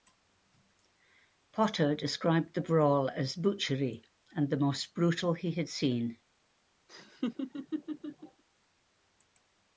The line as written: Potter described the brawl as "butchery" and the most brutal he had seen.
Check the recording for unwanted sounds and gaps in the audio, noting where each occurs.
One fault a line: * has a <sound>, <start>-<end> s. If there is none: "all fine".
* has a laugh, 6.9-8.4 s